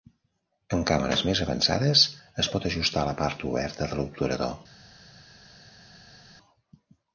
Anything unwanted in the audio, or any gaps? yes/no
no